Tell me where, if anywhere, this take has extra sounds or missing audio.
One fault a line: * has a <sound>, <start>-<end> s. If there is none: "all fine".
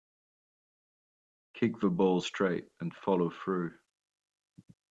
all fine